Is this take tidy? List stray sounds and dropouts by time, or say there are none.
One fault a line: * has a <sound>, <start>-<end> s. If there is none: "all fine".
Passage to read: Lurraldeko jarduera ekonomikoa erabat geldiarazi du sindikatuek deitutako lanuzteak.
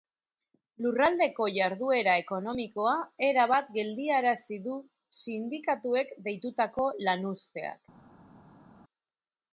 all fine